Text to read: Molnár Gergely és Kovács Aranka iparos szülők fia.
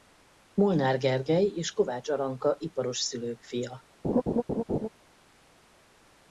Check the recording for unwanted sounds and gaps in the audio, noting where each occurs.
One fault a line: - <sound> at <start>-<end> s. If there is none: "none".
- laugh at 4.0-4.9 s